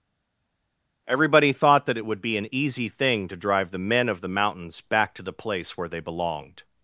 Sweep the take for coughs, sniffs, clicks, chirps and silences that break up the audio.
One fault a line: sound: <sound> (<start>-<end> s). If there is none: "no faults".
no faults